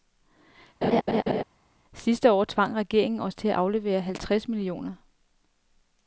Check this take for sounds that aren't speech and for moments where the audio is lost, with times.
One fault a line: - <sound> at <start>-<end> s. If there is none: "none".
- laugh at 0.8-1.4 s